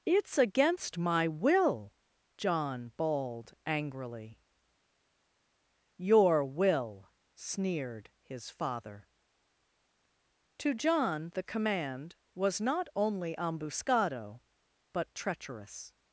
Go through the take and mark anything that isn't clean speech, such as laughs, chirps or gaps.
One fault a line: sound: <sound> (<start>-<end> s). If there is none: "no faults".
no faults